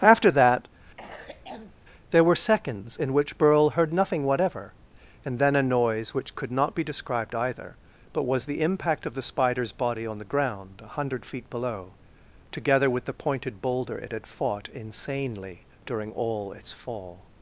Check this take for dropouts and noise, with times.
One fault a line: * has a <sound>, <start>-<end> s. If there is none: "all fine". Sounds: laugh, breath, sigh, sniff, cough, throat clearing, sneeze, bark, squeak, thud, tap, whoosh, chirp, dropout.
* has a cough, 1.0-1.8 s